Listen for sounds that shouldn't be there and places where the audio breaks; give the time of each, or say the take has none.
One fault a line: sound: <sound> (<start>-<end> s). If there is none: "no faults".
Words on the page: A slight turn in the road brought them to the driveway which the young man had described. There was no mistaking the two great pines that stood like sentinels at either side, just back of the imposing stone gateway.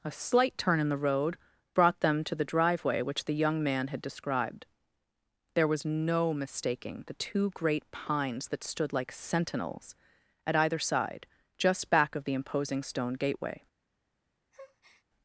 sound: breath (14.5-15.0 s)